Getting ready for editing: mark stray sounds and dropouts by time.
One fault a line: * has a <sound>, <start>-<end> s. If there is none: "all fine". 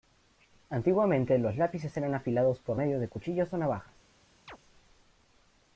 * has a chirp, 4.5-4.6 s